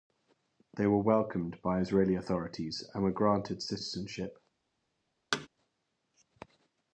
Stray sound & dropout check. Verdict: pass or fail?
fail